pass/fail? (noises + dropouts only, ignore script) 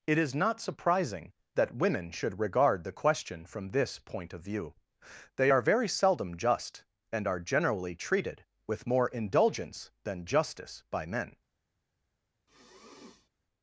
fail